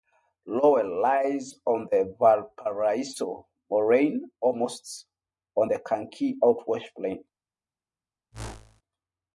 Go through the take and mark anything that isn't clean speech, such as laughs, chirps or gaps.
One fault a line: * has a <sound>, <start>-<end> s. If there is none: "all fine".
* has a whoosh, 8.3-8.8 s